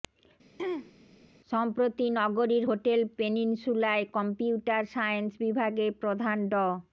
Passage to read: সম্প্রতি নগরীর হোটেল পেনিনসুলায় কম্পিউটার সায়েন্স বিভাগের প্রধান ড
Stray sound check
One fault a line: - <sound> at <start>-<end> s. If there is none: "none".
- throat clearing at 0.6-0.9 s